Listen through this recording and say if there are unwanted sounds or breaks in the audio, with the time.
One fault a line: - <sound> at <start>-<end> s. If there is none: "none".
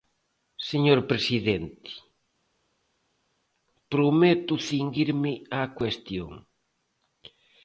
none